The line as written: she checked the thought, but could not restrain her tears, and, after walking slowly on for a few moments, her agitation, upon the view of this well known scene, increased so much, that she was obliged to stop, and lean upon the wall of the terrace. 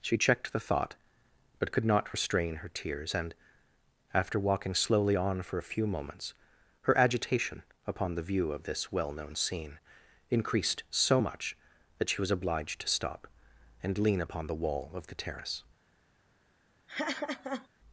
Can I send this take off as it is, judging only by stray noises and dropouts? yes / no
no